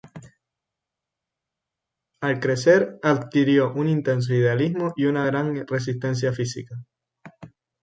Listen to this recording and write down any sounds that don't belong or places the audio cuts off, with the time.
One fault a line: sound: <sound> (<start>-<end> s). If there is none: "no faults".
no faults